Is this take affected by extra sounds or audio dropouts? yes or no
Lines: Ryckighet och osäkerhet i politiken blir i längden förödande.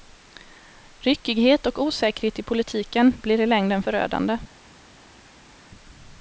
no